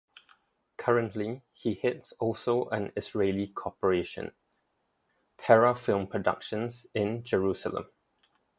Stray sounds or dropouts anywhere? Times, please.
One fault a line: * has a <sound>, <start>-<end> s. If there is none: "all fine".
all fine